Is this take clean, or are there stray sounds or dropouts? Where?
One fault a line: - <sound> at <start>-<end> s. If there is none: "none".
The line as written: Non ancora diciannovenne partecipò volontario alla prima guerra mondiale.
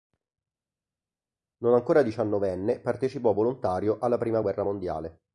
none